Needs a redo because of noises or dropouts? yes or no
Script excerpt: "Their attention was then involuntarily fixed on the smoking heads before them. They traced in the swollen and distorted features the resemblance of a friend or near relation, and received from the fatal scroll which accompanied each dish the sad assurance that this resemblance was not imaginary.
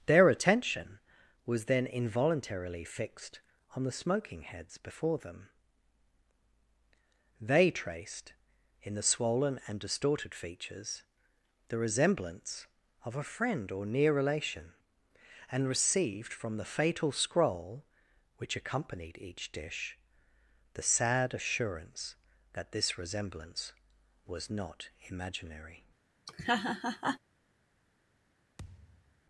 yes